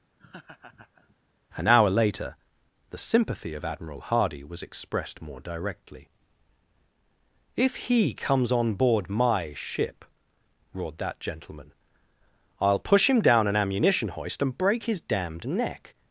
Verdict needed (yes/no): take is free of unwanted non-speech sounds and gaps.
no